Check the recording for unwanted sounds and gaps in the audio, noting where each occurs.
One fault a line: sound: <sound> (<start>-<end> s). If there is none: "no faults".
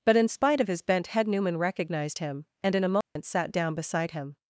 sound: dropout (3.0-3.2 s)